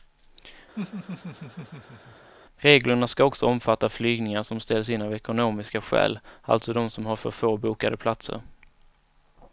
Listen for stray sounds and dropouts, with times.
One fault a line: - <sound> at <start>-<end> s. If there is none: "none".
- laugh at 0.8-2.3 s